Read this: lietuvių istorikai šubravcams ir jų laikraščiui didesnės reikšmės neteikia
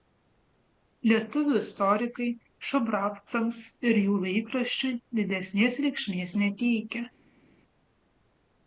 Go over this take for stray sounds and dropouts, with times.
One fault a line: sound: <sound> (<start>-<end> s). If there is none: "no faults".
no faults